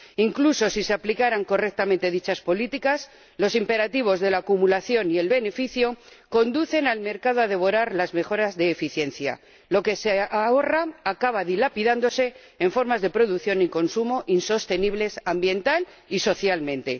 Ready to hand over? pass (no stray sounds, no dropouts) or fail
pass